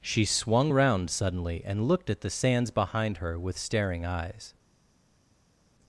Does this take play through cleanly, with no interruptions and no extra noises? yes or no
yes